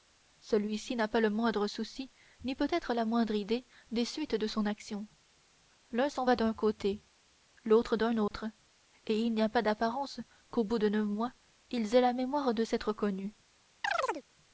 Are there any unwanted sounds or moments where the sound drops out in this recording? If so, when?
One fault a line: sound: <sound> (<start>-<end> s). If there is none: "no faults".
sound: dropout (8.3-8.3 s)
sound: chirp (13.8-14.2 s)